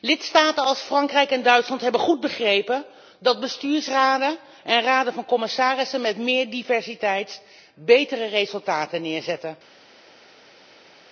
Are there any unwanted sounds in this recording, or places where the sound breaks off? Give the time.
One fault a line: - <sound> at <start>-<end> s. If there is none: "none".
none